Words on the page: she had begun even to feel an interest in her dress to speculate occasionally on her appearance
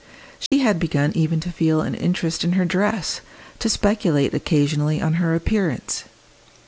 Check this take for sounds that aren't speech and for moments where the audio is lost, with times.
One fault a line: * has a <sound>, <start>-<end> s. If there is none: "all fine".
* has a dropout, 0.5-0.5 s